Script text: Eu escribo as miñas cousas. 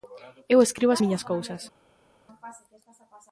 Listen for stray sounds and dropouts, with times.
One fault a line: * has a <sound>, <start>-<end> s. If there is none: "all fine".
all fine